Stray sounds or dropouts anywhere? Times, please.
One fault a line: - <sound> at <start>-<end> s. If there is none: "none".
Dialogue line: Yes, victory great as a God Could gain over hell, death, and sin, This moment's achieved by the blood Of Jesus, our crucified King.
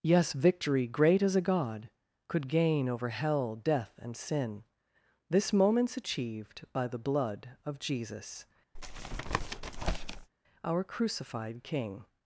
- tap at 8.7-10.3 s